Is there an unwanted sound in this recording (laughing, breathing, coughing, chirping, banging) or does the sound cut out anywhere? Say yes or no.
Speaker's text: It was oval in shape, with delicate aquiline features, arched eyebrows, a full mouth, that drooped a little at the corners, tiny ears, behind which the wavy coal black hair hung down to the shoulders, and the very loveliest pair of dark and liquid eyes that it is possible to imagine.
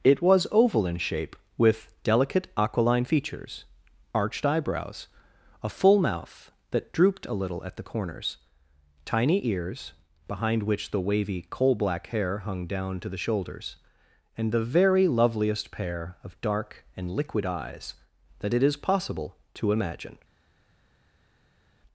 no